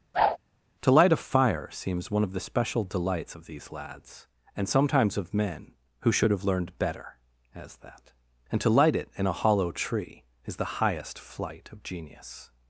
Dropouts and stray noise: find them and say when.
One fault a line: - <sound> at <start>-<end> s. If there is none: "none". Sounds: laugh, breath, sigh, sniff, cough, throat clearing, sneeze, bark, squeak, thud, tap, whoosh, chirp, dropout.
- whoosh at 0.1-0.4 s